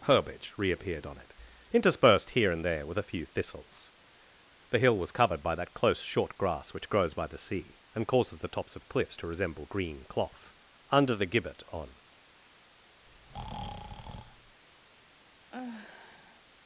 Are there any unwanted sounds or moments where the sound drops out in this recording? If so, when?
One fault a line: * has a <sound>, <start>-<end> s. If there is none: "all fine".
* has a breath, 13.1-14.6 s
* has a sigh, 15.5-16.4 s